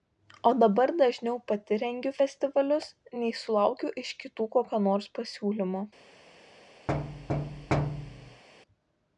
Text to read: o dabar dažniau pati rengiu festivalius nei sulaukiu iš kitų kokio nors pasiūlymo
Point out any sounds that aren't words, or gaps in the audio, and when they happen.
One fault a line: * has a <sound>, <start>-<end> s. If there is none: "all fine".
* has a thud, 6.9-8.4 s